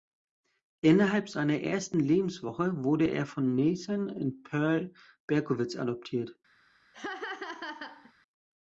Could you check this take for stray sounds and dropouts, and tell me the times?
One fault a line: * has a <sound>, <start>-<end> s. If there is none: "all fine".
* has a laugh, 6.9-8.1 s